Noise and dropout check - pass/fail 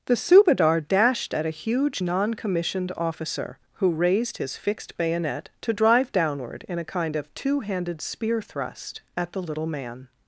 pass